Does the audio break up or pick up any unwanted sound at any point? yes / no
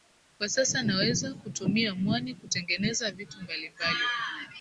no